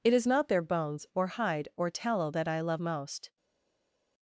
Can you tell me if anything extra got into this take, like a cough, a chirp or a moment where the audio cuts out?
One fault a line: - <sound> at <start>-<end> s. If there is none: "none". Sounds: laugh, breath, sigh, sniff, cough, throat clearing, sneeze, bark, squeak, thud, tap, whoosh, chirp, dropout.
none